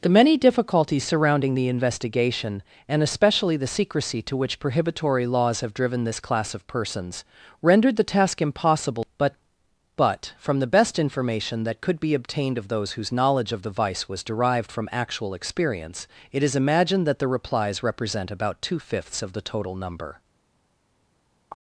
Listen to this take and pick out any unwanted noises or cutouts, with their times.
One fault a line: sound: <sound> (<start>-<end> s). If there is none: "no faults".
no faults